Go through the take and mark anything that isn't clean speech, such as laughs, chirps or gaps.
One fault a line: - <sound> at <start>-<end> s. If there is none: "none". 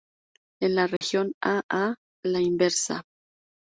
- dropout at 1.0-1.0 s